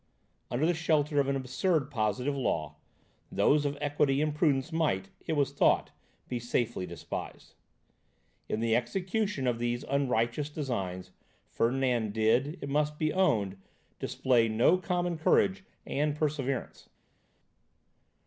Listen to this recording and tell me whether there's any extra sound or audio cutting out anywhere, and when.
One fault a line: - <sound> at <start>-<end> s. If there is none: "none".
none